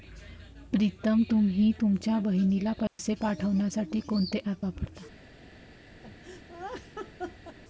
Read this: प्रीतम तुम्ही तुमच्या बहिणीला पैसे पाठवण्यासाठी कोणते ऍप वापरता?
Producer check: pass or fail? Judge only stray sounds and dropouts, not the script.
fail